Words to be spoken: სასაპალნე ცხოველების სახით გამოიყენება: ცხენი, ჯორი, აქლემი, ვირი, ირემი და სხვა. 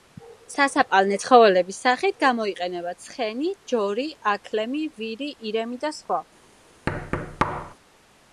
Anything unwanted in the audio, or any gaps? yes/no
yes